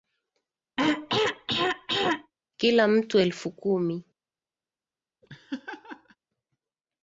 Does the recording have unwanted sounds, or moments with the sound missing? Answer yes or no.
yes